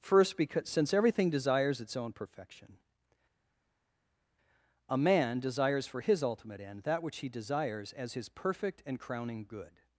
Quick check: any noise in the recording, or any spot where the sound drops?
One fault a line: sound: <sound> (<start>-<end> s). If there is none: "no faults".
no faults